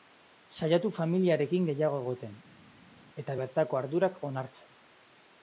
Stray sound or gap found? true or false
false